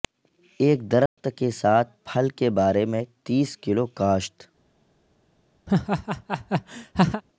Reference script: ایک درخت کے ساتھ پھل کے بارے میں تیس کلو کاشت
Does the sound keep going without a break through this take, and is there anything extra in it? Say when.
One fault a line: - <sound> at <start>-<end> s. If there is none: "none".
- dropout at 1.1-1.2 s
- laugh at 5.7-7.2 s